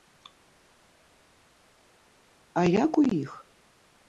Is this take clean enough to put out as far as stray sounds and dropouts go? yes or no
yes